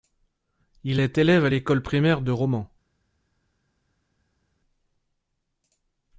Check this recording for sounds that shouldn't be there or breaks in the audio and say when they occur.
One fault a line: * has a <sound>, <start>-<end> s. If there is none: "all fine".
all fine